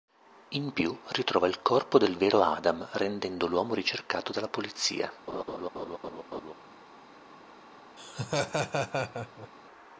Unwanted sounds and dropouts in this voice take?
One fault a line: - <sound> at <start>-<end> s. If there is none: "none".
- laugh at 5.3-6.5 s
- laugh at 8.0-9.5 s